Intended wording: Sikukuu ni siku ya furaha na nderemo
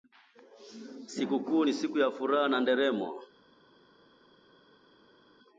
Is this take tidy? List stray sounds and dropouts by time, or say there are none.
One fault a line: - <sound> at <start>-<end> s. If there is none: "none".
none